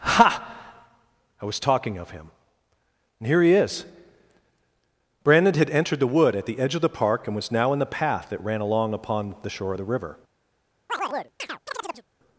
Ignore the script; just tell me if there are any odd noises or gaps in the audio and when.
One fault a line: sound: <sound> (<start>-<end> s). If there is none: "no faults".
sound: chirp (10.9-12.1 s)